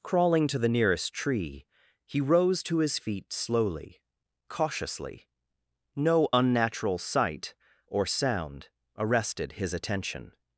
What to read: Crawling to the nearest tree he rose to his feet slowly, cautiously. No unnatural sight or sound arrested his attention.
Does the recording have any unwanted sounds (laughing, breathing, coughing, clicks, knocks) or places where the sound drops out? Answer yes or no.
no